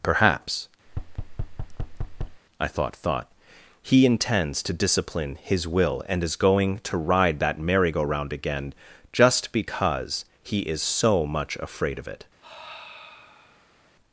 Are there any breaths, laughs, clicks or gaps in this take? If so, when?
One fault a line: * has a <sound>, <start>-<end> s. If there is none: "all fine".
* has a thud, 0.9-2.4 s
* has a sigh, 12.4-13.9 s